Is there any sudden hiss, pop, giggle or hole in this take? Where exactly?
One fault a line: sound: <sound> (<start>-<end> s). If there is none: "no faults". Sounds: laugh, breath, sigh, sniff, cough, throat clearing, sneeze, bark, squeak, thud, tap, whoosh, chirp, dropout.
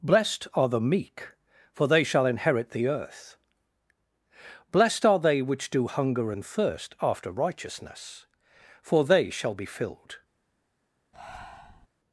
sound: breath (11.1-11.9 s)